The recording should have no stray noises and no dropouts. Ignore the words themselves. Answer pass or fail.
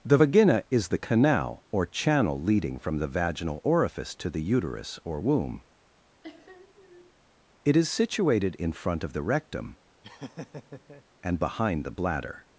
fail